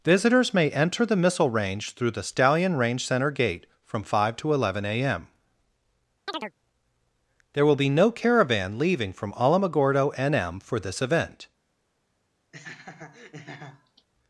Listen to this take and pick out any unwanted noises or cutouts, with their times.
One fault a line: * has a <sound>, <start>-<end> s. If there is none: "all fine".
* has a chirp, 6.3-6.5 s
* has a laugh, 12.5-14.1 s